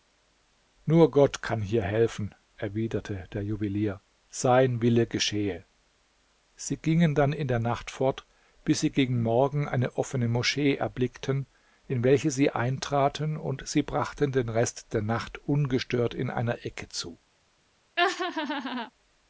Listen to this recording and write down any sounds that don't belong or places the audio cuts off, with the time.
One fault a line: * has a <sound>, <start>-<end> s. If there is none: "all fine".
* has a laugh, 18.0-18.9 s